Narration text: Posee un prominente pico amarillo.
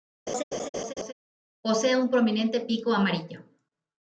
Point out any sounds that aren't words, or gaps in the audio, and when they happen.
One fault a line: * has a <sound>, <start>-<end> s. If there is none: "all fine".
* has a laugh, 0.3-1.1 s